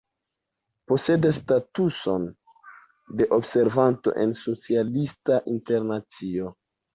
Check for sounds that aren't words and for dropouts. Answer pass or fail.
pass